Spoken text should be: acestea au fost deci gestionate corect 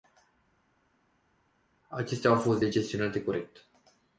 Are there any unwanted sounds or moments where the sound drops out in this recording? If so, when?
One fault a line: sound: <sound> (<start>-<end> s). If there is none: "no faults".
no faults